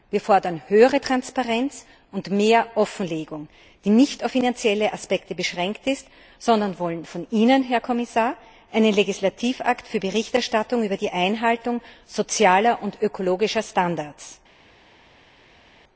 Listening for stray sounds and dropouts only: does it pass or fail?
pass